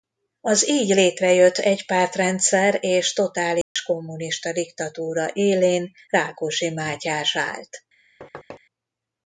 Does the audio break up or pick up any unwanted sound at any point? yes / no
yes